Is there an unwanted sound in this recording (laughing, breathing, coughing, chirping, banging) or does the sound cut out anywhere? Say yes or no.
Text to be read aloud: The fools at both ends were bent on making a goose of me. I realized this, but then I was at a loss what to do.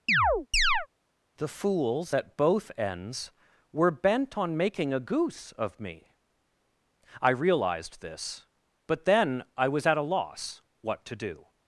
yes